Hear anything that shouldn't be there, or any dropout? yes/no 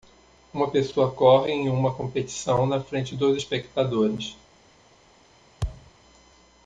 yes